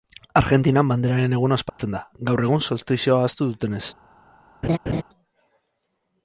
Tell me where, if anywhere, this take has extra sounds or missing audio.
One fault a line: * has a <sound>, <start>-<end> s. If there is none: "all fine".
* has a dropout, 1.7-1.8 s
* has a laugh, 4.6-5.0 s